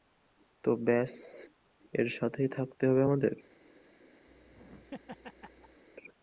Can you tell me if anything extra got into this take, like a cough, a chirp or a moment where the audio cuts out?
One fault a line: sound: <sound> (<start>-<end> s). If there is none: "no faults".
sound: laugh (4.3-5.8 s)